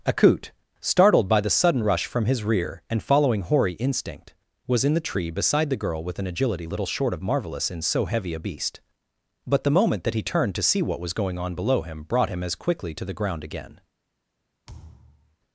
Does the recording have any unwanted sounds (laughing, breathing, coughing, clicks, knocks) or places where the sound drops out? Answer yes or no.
yes